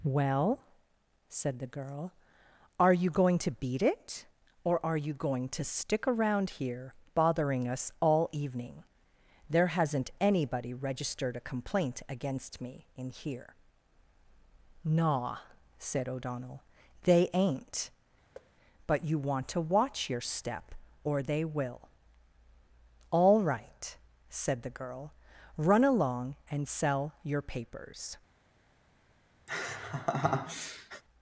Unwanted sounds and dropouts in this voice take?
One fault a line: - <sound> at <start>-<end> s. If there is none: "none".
- thud at 18.3-18.5 s
- laugh at 29.5-31.0 s